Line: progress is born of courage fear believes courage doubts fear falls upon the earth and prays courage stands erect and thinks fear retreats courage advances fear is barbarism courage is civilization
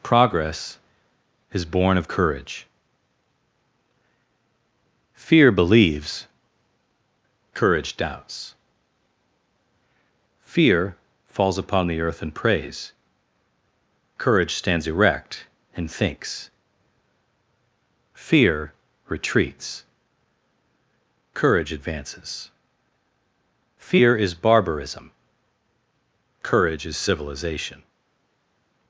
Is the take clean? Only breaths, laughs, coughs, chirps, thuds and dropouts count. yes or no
yes